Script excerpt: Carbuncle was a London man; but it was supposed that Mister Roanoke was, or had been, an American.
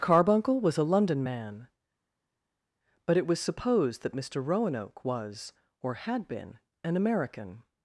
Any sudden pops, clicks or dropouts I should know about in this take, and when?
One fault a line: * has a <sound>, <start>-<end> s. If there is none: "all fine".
all fine